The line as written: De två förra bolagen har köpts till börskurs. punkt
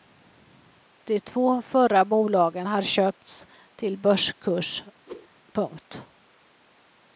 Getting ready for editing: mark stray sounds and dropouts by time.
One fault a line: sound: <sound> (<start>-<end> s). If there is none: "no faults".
sound: whoosh (5.1-5.3 s)